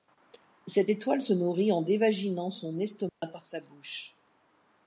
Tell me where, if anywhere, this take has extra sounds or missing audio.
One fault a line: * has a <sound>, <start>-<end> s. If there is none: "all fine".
* has a dropout, 3.1-3.2 s